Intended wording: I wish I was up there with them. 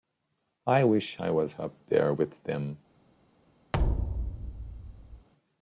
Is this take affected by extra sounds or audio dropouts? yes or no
yes